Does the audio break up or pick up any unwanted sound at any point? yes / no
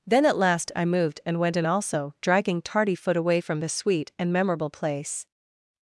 no